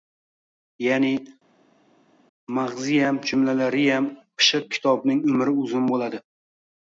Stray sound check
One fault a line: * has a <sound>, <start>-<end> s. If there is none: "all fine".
all fine